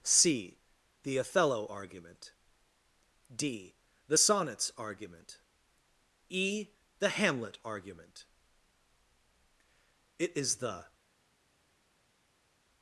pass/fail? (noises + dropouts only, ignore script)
pass